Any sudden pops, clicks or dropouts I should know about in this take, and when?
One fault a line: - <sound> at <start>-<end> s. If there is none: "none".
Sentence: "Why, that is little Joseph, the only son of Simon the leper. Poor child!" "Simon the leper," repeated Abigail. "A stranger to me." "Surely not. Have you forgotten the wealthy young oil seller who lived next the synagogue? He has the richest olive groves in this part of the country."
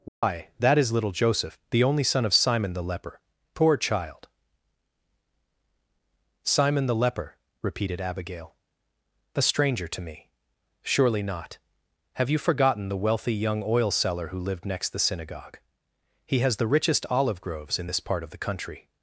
- dropout at 0.1-0.2 s